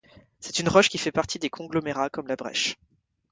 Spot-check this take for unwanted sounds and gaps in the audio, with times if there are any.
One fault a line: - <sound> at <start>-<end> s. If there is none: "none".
none